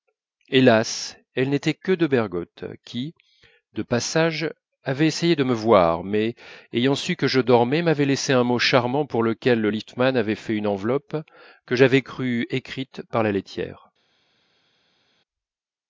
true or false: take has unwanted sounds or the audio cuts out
false